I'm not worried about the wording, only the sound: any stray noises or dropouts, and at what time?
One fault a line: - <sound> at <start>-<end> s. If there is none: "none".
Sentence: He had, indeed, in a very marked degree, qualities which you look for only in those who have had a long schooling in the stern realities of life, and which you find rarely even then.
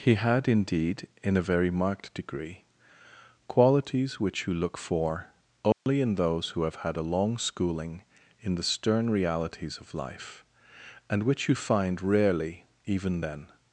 - dropout at 5.7-5.9 s